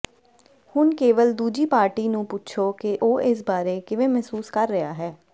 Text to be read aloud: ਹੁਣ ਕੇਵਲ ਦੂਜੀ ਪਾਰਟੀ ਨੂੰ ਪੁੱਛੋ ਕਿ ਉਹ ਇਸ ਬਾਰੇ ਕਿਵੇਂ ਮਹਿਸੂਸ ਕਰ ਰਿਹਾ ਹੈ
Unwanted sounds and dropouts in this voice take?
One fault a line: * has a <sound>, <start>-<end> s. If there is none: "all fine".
all fine